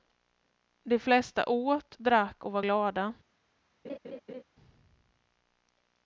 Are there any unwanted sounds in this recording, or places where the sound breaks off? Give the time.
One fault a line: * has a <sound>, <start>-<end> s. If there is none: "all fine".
* has a laugh, 3.8-4.4 s